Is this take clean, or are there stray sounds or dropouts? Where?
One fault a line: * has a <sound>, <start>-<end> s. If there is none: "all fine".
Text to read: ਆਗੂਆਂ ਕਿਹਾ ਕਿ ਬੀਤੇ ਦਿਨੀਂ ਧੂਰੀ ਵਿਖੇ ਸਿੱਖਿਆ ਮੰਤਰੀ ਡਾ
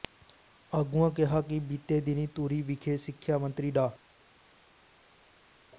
all fine